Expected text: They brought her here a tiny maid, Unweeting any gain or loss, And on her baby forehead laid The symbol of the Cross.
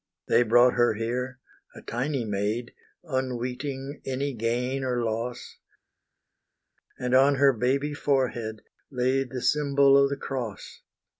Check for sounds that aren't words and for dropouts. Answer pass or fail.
pass